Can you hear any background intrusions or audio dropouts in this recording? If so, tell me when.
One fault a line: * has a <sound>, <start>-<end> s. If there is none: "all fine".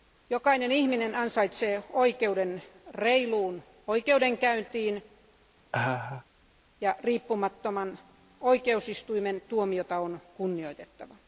* has a laugh, 5.7-6.2 s